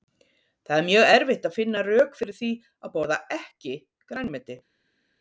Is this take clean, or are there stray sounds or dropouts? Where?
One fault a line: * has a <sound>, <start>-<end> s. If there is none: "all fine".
all fine